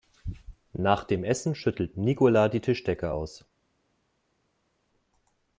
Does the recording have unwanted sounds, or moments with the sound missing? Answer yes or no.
no